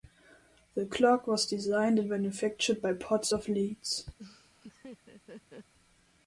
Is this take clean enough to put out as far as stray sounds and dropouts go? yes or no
no